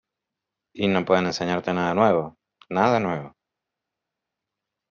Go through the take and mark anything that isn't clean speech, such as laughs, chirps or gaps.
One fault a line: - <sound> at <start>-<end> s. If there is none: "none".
none